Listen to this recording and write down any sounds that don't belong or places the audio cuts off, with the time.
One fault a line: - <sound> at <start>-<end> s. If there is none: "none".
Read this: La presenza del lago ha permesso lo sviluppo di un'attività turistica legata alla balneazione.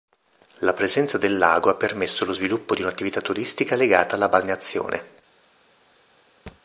- thud at 6.5-6.6 s